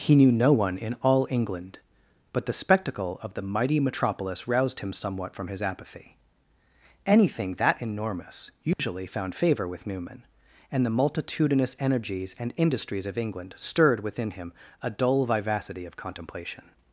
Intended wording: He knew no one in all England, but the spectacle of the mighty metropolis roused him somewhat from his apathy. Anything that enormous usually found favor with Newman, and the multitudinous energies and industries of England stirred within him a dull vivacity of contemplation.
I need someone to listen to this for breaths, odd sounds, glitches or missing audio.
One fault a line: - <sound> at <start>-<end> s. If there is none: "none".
- dropout at 8.7-8.8 s